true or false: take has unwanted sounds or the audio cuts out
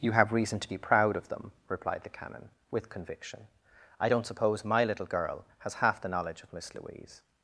false